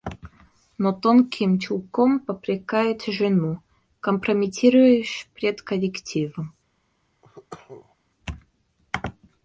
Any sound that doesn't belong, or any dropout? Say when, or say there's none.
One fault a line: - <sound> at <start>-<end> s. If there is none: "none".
- cough at 7.2-8.0 s